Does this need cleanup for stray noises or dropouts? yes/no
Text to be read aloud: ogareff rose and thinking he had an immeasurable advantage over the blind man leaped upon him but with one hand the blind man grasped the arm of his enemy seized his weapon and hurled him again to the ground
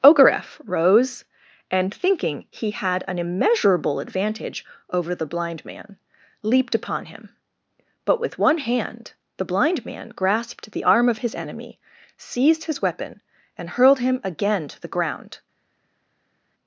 no